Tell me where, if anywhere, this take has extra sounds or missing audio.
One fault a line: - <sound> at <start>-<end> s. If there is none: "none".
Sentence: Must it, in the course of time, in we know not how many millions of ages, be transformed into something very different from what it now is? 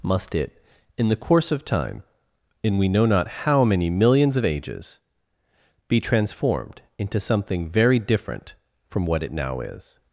none